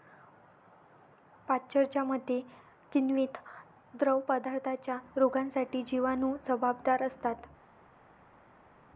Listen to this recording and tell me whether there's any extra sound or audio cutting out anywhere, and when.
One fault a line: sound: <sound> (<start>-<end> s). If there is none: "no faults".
no faults